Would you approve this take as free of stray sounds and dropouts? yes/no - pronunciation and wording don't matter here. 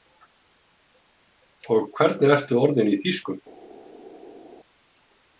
yes